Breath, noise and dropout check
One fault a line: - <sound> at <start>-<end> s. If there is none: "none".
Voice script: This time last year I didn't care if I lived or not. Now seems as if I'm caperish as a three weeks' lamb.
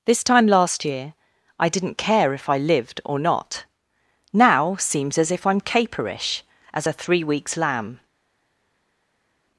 none